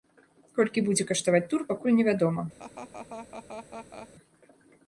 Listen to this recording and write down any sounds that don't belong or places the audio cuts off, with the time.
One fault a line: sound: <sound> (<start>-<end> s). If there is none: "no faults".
sound: laugh (2.6-4.1 s)